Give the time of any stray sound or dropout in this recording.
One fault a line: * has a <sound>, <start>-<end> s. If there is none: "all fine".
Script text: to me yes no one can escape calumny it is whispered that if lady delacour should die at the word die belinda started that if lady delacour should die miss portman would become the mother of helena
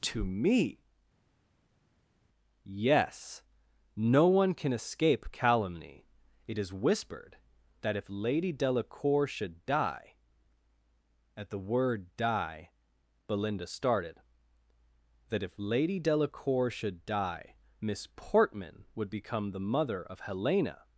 all fine